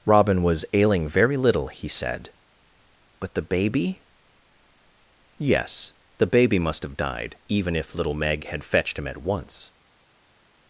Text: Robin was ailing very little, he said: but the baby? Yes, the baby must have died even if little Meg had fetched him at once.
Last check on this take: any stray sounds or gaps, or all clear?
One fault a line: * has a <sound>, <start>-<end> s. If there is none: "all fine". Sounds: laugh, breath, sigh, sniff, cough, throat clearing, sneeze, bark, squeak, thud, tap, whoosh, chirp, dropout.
all fine